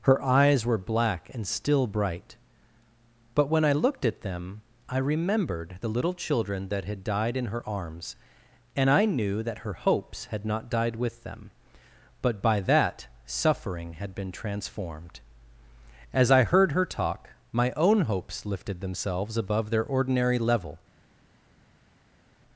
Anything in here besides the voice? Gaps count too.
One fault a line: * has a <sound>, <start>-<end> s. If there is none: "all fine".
all fine